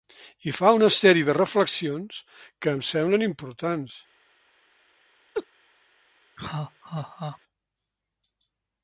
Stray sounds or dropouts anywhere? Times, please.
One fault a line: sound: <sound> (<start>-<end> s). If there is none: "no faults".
sound: laugh (5.3-5.5 s)
sound: laugh (6.4-7.4 s)